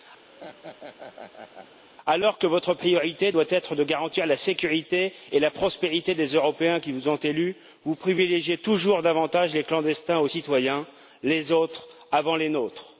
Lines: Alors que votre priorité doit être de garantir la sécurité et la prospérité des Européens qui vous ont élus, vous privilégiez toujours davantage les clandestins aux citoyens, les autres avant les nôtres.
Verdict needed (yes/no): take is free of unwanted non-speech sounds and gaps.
no